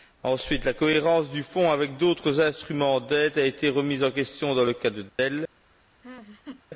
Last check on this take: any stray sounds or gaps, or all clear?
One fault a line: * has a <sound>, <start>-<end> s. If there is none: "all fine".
* has a dropout, 5.1-5.2 s
* has a laugh, 6.0-6.6 s